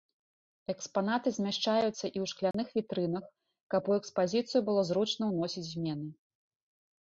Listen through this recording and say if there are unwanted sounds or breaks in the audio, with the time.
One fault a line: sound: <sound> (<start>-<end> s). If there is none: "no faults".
sound: dropout (2.5-2.5 s)